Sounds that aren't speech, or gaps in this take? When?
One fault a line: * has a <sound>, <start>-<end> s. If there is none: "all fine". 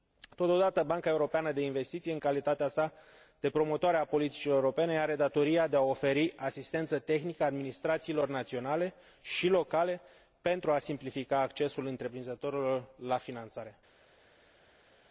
all fine